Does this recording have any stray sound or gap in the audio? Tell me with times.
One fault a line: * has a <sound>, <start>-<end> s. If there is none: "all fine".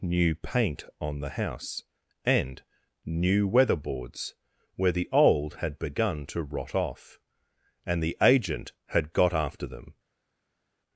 all fine